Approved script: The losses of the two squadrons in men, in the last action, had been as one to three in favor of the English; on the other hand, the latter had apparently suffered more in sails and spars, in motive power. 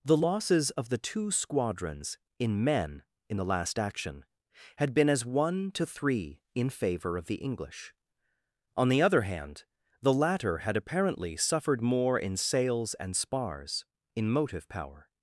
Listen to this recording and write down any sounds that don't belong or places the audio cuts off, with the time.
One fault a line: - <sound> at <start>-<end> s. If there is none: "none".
none